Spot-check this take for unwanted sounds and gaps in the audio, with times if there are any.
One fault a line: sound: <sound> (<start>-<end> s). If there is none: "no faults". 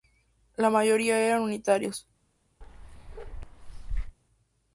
sound: bark (2.6-4.2 s)